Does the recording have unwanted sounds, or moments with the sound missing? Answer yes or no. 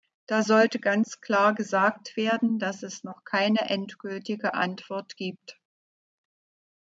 no